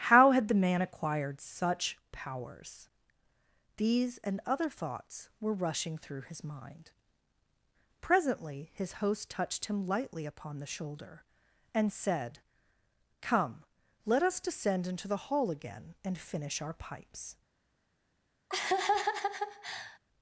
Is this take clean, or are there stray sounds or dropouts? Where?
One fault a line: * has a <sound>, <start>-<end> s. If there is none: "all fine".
* has a laugh, 18.5-20.0 s